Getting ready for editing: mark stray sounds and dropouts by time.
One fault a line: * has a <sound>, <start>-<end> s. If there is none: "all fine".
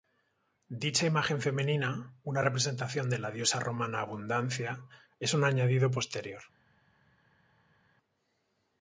all fine